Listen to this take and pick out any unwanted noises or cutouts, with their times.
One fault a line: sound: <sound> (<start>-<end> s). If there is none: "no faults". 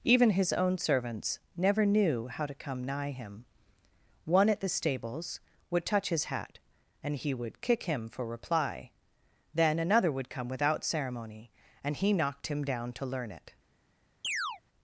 sound: chirp (14.2-14.6 s)